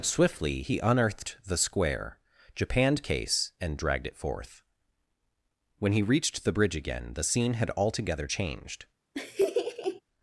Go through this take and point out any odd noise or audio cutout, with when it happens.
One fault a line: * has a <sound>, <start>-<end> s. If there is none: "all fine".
* has a laugh, 9.1-10.0 s